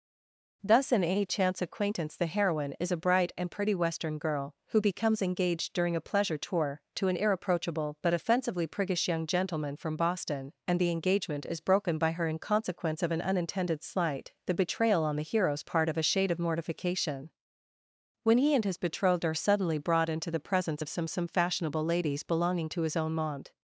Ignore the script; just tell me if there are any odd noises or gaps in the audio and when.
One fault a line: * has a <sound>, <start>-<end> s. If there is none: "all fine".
all fine